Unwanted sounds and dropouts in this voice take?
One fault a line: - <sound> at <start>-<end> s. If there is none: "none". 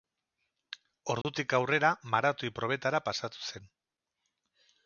- dropout at 1.2-1.2 s